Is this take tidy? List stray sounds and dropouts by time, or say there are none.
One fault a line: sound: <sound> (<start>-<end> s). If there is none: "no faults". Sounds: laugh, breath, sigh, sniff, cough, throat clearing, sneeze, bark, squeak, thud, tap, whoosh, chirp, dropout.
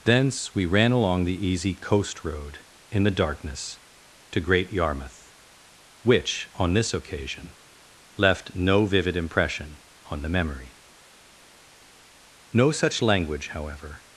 no faults